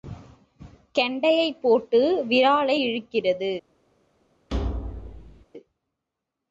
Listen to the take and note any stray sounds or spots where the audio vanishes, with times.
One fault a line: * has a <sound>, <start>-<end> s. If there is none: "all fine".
* has a thud, 4.5-5.4 s